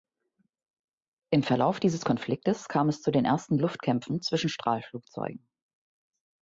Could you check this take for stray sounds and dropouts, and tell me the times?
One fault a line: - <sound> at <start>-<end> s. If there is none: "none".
none